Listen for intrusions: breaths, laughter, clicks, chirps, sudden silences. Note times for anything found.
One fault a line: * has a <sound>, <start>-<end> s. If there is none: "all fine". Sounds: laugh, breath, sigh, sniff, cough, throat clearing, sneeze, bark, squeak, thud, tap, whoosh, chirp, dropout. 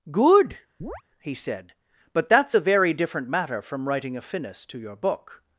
* has a chirp, 0.8-1.0 s